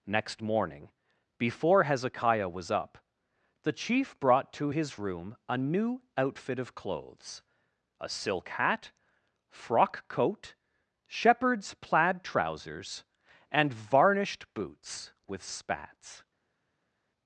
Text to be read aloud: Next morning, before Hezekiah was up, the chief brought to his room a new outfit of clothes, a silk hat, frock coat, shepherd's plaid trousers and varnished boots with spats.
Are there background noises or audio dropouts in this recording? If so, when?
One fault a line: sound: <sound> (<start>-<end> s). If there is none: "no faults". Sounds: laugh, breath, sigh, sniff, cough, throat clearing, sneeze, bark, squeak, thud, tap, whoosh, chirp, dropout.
no faults